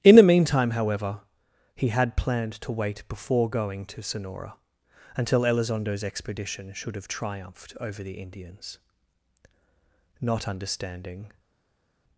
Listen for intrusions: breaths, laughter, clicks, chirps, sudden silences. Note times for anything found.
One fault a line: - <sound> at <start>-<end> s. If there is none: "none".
none